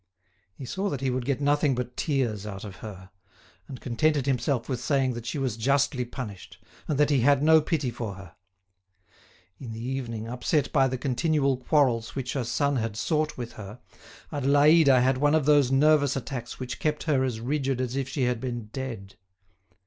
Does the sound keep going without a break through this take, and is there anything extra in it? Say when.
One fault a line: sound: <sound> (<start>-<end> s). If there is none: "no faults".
no faults